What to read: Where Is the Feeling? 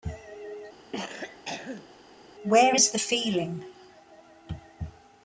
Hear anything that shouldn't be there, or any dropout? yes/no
yes